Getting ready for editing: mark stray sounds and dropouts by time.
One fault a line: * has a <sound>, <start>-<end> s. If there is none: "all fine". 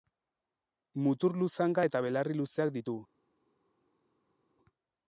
all fine